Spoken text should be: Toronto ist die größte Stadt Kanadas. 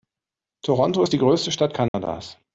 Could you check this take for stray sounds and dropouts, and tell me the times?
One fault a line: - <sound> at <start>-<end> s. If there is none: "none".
- dropout at 1.9-1.9 s